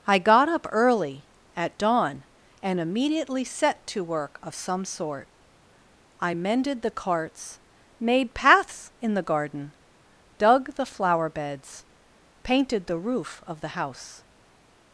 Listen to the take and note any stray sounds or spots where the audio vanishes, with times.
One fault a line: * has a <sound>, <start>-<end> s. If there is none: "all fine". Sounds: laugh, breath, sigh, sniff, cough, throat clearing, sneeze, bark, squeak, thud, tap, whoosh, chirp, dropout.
all fine